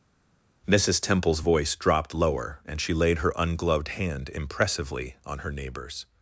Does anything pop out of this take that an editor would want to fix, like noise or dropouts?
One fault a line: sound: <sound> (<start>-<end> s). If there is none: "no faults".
no faults